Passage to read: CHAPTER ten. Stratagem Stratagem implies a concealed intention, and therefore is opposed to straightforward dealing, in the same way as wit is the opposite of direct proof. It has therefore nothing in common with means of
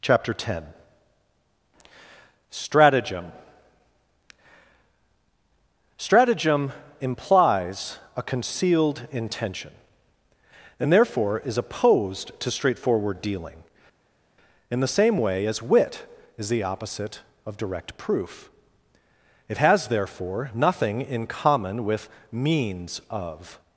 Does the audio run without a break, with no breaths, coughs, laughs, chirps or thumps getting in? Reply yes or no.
yes